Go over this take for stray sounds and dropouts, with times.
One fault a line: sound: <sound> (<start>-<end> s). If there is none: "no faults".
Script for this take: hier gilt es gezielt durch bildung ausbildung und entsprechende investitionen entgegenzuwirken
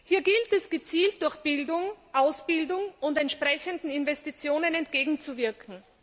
no faults